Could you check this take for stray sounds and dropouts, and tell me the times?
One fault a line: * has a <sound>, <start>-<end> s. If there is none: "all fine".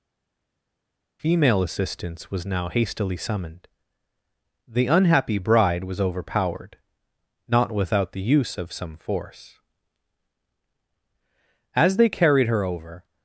all fine